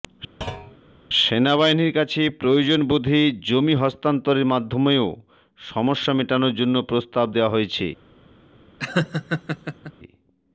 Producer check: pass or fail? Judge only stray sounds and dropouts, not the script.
fail